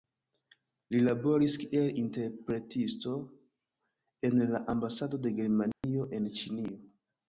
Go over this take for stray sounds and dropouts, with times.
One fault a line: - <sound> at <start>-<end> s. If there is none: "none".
- dropout at 5.7-5.8 s